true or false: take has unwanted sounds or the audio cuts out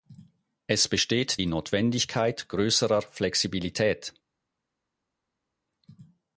false